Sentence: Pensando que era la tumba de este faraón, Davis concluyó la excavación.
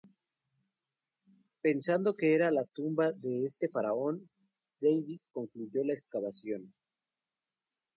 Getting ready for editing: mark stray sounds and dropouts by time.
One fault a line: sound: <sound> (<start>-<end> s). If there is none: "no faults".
no faults